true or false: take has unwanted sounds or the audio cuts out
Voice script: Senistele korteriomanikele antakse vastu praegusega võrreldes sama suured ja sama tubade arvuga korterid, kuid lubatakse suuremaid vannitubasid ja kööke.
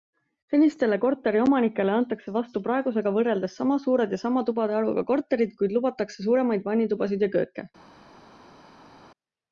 false